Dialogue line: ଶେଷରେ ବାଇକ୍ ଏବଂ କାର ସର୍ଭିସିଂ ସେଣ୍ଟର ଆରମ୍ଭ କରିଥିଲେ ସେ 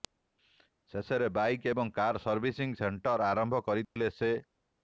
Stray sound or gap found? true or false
true